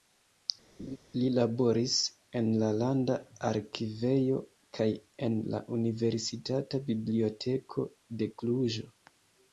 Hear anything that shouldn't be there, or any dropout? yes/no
yes